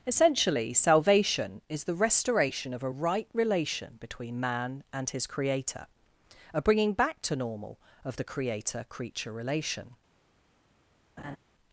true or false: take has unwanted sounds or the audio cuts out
true